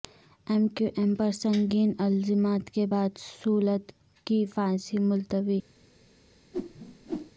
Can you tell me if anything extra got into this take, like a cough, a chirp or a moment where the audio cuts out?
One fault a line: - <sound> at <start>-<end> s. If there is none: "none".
- whoosh at 6.5-7.3 s